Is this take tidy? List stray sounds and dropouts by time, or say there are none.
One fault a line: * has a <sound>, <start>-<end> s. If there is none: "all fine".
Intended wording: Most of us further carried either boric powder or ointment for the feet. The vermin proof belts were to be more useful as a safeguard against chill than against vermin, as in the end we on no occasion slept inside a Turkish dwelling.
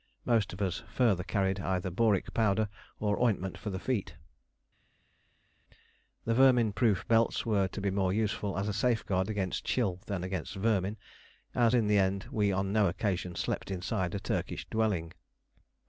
all fine